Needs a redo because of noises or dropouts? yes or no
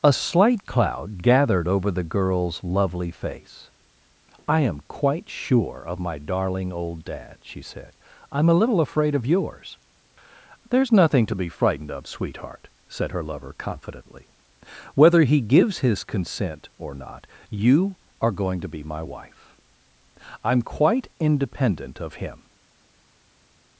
no